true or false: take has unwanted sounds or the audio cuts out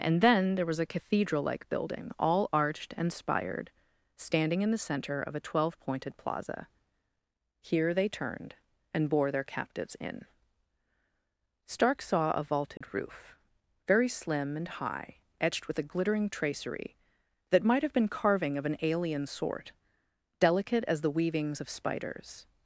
true